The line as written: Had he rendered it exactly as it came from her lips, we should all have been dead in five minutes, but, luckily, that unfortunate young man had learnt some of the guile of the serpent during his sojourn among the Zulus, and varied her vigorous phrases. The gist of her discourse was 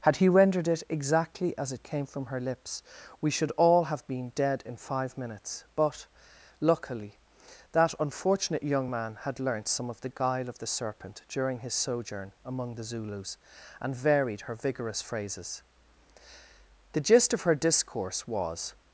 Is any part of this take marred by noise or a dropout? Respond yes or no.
no